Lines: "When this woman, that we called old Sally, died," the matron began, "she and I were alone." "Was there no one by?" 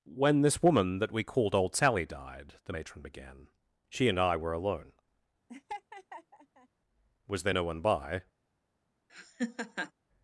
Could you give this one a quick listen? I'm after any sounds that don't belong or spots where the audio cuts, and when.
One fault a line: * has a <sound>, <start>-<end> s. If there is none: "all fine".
* has a laugh, 5.5-6.7 s
* has a laugh, 9.1-9.9 s